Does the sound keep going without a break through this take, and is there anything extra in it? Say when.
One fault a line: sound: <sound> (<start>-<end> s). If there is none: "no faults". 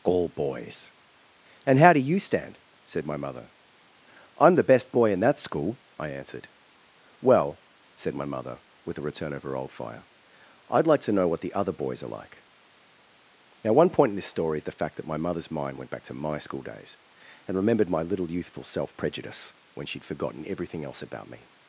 no faults